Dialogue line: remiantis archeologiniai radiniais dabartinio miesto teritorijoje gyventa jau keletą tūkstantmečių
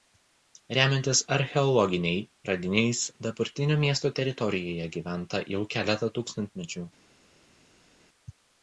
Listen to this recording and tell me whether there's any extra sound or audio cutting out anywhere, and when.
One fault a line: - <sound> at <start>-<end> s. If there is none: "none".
none